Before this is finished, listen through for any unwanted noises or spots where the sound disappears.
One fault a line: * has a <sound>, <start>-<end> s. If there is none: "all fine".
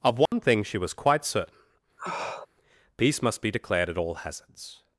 * has a dropout, 0.3-0.3 s
* has a sniff, 2.0-2.5 s